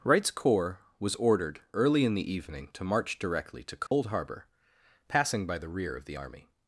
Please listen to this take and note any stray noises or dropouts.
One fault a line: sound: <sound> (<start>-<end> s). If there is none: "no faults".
sound: dropout (3.9-3.9 s)